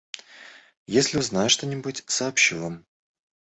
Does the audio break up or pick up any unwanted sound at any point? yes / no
no